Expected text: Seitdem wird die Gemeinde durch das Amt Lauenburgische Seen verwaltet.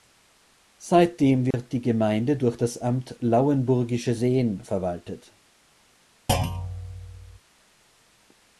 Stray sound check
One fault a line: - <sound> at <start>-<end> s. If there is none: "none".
- dropout at 1.5-1.5 s
- thud at 6.3-7.4 s